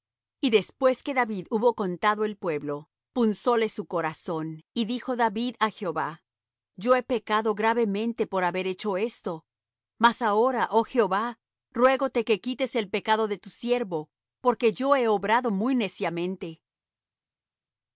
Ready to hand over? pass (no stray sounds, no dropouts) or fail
pass